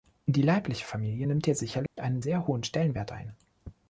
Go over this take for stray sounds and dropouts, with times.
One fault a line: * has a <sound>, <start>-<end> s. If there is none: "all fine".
* has a dropout, 1.9-2.0 s